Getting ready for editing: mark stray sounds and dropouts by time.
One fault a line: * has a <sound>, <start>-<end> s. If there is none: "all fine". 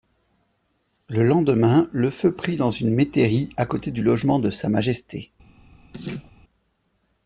* has a laugh, 5.9-6.3 s